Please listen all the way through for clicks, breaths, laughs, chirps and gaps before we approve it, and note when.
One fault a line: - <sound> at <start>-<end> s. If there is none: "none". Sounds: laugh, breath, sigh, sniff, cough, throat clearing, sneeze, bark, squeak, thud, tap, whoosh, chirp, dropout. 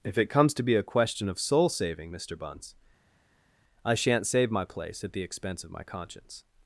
none